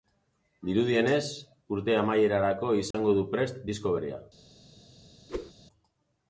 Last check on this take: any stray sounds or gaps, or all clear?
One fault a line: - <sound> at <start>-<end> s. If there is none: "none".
- dropout at 2.9-2.9 s
- whoosh at 5.3-5.5 s